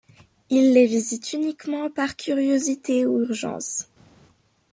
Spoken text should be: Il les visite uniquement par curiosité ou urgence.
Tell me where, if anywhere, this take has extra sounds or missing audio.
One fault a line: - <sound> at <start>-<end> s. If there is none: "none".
none